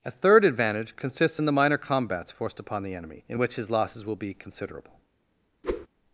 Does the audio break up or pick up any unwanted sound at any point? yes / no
yes